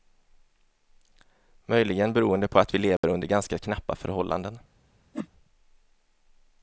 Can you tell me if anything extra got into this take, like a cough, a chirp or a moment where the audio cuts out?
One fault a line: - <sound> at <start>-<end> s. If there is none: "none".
- dropout at 3.0-3.0 s
- whoosh at 5.1-5.3 s